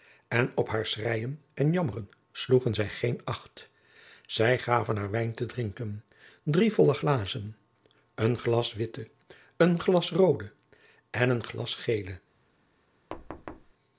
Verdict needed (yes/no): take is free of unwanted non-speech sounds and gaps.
no